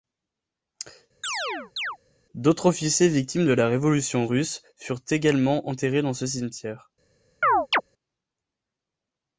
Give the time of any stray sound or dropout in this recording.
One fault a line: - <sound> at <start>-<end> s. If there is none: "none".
- chirp at 1.2-2.0 s
- chirp at 7.4-7.8 s